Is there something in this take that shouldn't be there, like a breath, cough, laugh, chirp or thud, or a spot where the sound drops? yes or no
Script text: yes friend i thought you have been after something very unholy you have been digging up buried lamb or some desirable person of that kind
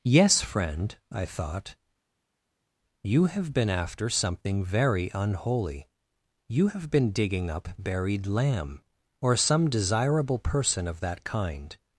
no